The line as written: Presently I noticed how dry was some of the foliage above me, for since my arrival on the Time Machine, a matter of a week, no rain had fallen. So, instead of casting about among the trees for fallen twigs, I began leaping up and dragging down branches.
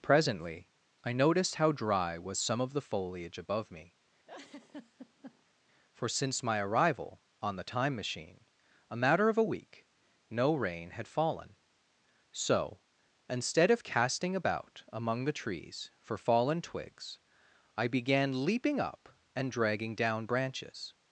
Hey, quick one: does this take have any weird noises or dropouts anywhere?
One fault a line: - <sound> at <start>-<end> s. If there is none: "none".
- laugh at 4.3-5.5 s